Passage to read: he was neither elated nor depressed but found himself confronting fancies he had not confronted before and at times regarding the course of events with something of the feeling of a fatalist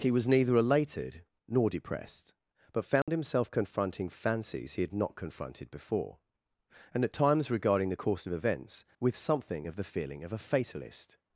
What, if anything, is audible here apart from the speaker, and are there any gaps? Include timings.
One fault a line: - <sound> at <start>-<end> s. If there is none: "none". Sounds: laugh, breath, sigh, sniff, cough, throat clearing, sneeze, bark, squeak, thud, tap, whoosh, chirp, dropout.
- dropout at 3.0-3.1 s